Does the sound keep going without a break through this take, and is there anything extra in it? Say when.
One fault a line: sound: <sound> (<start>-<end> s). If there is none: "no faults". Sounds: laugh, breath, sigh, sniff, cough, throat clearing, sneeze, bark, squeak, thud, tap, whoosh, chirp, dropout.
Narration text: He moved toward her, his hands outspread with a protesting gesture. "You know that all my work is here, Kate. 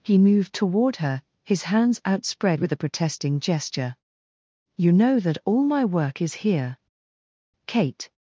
no faults